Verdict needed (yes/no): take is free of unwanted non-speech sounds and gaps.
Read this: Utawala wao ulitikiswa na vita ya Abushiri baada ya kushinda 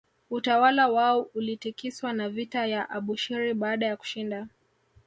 yes